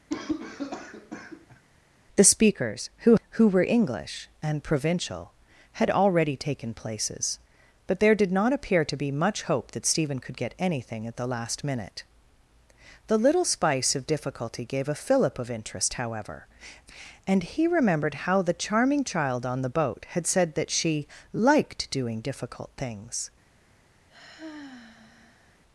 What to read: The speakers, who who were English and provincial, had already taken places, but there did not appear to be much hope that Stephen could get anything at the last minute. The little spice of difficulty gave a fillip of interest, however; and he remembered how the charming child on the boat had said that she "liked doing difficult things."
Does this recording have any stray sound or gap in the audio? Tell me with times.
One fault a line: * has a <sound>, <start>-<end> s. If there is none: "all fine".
* has a cough, 0.1-1.6 s
* has a sigh, 24.1-25.6 s